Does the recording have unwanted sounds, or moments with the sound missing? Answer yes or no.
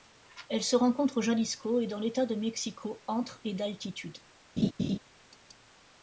yes